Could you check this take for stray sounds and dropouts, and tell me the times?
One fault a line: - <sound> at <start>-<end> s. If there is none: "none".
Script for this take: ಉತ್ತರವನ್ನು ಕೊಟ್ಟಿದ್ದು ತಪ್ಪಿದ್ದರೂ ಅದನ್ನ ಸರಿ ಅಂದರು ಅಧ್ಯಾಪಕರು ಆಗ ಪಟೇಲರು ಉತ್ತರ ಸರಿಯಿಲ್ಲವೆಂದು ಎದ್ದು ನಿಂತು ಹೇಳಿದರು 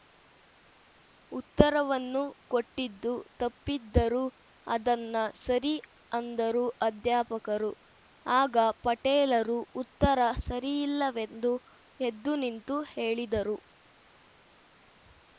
none